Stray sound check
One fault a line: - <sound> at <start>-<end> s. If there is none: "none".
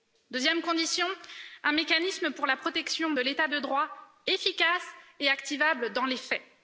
none